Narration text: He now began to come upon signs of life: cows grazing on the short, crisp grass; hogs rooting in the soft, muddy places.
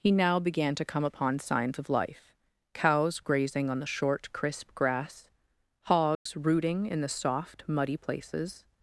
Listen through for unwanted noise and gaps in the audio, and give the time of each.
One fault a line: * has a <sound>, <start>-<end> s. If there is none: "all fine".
* has a dropout, 6.1-6.3 s